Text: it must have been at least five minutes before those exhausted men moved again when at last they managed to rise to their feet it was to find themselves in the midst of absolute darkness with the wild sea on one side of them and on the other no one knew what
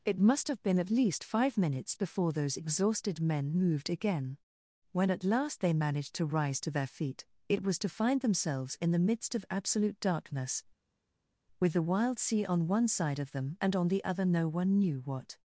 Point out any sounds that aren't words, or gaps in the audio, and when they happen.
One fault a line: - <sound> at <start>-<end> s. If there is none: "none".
none